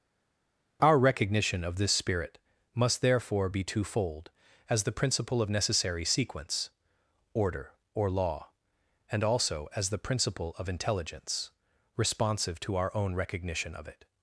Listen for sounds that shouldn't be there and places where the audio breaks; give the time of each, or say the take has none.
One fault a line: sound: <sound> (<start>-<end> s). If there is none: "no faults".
no faults